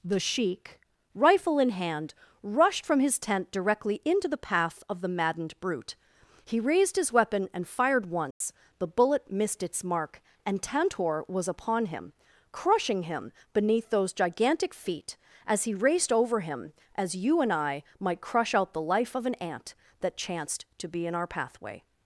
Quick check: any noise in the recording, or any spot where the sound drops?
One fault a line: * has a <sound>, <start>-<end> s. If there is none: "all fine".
* has a dropout, 8.3-8.4 s